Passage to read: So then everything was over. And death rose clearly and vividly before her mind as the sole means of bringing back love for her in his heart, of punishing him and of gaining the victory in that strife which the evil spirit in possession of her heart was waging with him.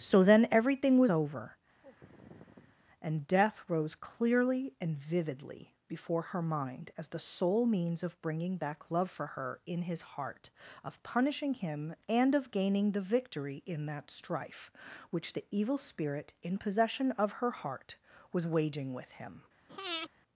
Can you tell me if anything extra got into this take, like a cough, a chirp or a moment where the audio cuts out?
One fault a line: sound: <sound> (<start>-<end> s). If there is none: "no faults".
sound: sigh (1.8-2.8 s)
sound: breath (19.7-20.1 s)